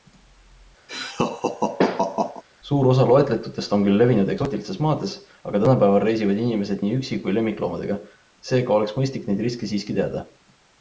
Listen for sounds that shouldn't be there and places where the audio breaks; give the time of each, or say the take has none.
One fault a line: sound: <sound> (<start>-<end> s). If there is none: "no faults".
sound: laugh (0.9-2.4 s)